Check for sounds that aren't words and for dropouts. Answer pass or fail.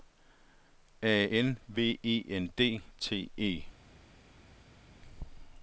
pass